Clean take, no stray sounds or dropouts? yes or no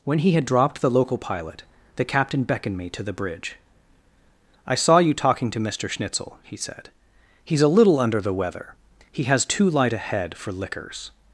yes